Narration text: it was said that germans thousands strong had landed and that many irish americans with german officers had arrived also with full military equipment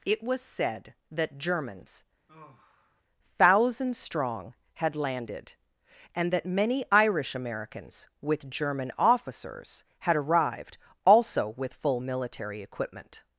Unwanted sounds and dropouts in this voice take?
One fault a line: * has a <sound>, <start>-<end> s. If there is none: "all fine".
* has a sigh, 2.3-3.0 s